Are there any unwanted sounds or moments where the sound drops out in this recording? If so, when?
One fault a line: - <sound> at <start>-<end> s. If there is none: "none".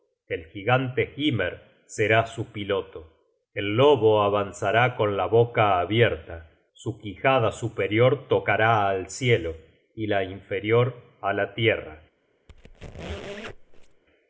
- squeak at 12.5-14.0 s